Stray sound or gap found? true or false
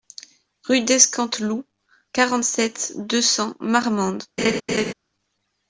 true